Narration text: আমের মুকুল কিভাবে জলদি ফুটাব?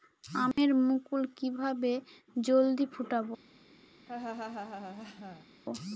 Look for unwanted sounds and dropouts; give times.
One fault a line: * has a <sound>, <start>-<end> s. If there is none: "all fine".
* has a dropout, 0.5-0.6 s
* has a laugh, 4.1-5.5 s